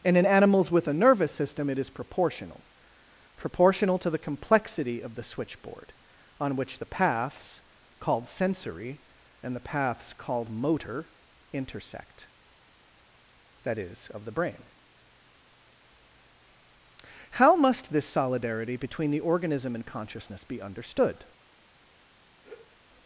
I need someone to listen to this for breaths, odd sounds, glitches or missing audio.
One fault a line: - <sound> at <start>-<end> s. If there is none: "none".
- sigh at 22.4-22.8 s